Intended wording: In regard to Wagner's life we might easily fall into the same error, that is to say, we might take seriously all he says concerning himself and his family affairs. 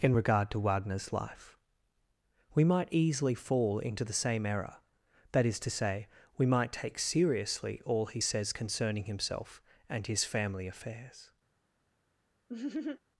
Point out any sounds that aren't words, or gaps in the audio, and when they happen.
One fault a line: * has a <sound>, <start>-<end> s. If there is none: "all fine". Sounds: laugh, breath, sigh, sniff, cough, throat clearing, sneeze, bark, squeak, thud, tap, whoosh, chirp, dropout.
* has a laugh, 12.5-13.0 s